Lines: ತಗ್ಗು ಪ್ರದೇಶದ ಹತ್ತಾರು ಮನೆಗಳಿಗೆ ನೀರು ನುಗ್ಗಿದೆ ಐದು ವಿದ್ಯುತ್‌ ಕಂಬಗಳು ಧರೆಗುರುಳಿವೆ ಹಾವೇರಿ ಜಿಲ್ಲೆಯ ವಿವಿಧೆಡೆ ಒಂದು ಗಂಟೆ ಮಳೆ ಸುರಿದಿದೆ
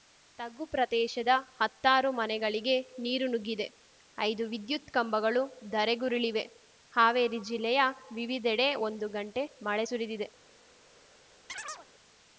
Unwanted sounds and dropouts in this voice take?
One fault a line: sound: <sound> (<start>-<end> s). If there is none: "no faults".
sound: chirp (11.5-11.9 s)